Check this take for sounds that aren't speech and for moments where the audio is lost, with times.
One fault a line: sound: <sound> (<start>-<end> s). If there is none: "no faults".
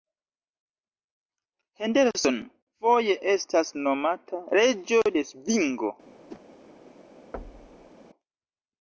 sound: whoosh (6.3-6.4 s)
sound: thud (7.3-7.9 s)